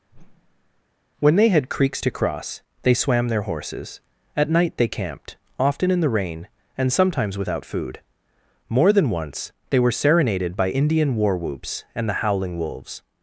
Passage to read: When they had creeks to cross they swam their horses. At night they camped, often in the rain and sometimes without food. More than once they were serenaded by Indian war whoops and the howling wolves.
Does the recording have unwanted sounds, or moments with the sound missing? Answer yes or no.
yes